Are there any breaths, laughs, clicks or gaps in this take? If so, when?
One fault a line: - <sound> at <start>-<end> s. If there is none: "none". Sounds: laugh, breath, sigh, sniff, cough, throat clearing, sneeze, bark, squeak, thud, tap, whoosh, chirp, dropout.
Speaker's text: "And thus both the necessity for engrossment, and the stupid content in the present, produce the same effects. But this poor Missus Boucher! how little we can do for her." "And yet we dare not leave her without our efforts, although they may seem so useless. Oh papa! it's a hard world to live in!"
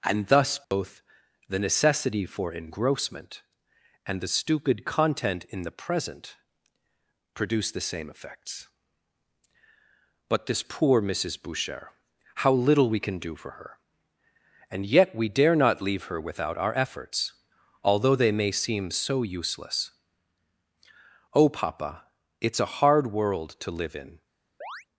- dropout at 0.6-0.7 s
- chirp at 24.6-24.9 s